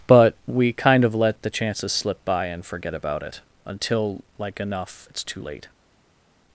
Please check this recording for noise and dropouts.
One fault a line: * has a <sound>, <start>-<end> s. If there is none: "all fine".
all fine